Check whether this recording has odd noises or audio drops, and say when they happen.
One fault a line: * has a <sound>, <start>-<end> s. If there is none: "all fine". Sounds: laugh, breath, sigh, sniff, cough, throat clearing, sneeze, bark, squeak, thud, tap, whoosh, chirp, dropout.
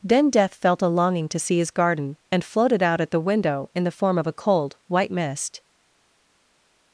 all fine